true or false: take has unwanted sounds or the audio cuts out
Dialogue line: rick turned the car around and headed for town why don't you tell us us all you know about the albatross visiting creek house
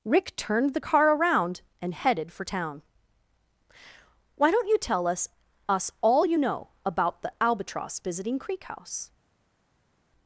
false